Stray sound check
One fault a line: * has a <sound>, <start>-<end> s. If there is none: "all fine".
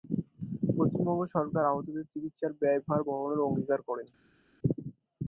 all fine